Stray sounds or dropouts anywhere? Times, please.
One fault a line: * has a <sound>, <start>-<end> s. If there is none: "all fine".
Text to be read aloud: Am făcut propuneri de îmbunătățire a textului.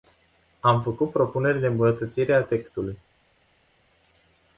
all fine